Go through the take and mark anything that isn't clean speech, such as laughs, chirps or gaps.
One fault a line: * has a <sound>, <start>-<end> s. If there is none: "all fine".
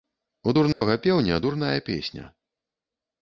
* has a dropout, 0.7-0.8 s